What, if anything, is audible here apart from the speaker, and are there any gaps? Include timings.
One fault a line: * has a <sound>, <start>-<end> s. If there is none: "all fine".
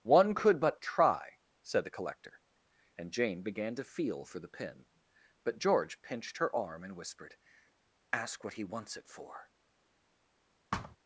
* has a thud, 10.7-11.0 s